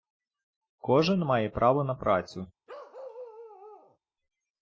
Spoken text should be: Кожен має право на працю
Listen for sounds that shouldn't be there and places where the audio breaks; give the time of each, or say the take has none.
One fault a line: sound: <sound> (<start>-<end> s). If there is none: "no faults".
sound: bark (2.7-4.0 s)